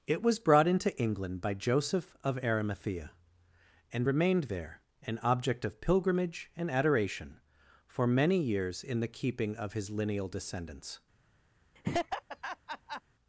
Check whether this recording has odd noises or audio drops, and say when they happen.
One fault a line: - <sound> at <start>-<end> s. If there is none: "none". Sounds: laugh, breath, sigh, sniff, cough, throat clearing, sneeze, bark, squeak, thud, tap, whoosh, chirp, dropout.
- laugh at 11.8-13.0 s